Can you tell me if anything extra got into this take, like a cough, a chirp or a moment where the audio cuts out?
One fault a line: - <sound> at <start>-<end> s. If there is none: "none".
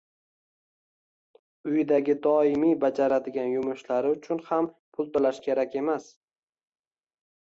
none